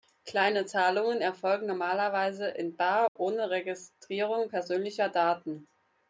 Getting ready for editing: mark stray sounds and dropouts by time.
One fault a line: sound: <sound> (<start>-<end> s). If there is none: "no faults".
sound: dropout (3.1-3.2 s)